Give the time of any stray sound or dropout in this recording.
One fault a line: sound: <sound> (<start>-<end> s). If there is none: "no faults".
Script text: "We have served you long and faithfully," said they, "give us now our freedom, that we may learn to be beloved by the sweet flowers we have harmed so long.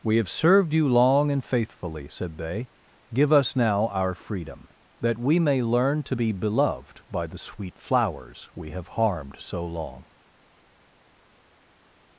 no faults